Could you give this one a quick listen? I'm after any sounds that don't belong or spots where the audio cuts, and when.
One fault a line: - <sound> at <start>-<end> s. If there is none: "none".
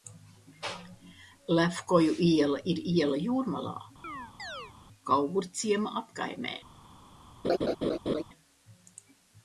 - chirp at 4.0-4.7 s
- laugh at 7.4-8.2 s